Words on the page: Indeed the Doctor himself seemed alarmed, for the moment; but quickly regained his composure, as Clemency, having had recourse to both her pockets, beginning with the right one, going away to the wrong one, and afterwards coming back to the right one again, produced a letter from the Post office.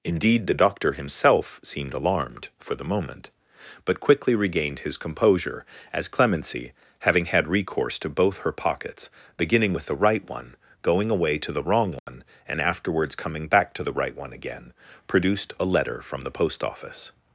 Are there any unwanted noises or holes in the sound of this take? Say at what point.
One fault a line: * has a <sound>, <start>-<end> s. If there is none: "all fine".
* has a dropout, 12.0-12.1 s